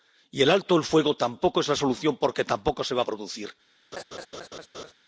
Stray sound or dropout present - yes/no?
yes